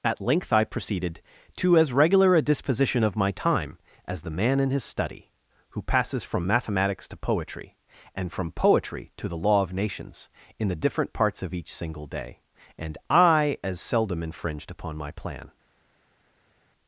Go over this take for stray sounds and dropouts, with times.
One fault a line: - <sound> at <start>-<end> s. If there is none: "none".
none